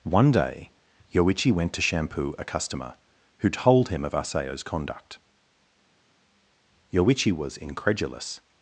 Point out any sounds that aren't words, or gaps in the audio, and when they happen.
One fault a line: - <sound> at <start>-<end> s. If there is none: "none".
none